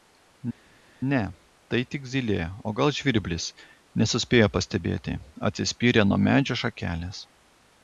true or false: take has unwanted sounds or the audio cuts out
false